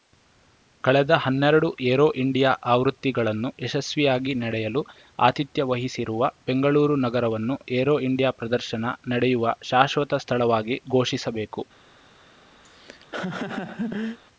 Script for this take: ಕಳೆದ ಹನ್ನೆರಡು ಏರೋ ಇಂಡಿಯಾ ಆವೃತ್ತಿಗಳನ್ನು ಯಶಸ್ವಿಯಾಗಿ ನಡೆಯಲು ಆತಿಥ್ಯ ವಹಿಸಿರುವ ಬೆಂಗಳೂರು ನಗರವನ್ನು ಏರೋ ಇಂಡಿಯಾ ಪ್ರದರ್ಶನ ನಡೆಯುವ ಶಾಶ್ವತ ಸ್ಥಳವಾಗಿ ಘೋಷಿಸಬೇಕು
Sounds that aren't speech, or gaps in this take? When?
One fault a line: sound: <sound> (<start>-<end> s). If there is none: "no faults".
sound: laugh (12.6-14.2 s)